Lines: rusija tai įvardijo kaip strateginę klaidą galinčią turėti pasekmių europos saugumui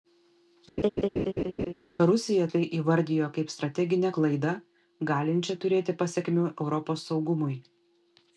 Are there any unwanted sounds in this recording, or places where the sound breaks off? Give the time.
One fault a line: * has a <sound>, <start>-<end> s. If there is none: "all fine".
* has a laugh, 0.8-1.7 s